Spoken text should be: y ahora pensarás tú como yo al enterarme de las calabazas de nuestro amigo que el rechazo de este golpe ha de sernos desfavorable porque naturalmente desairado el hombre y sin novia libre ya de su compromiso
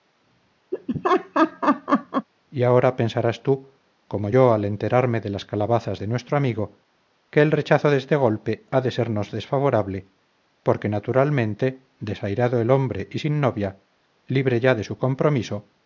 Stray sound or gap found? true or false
true